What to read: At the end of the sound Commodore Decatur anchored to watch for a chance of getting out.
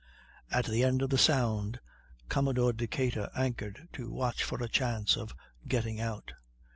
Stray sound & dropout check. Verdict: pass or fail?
pass